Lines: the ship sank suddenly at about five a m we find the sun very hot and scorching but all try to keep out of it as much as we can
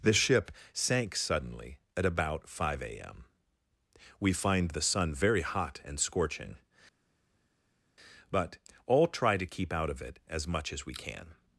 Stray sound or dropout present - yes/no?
no